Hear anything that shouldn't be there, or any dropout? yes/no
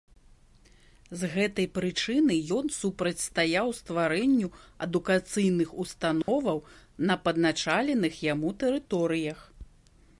yes